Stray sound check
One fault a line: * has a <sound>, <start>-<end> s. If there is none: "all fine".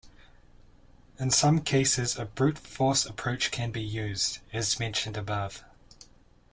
all fine